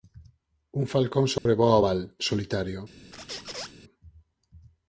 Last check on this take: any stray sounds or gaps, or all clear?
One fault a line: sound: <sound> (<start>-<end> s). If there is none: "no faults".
sound: dropout (1.4-1.5 s)
sound: squeak (3.1-3.7 s)